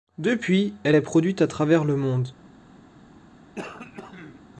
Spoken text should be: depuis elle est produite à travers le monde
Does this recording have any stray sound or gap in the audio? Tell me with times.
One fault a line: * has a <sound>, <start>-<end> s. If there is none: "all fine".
* has a throat clearing, 3.6-4.4 s